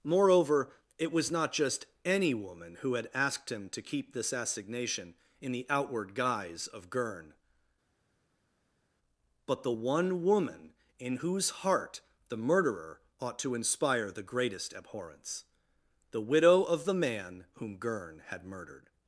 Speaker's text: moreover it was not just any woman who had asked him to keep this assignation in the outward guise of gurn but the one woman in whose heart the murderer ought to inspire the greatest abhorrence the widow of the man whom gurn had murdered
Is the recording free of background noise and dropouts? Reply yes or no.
yes